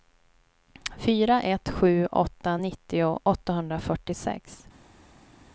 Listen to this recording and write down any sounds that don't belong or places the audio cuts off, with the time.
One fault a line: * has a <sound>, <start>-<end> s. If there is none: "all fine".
all fine